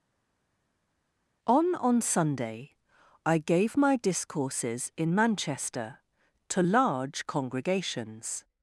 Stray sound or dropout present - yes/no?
no